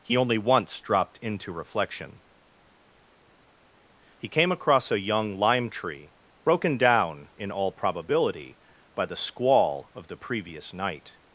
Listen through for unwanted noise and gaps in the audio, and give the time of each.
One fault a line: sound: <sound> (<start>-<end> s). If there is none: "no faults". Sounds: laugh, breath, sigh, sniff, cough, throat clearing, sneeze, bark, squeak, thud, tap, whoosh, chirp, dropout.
no faults